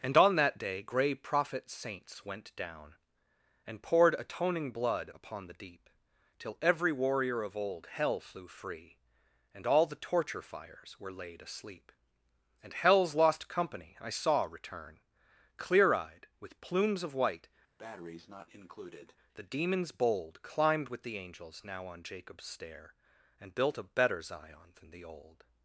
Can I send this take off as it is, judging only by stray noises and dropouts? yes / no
no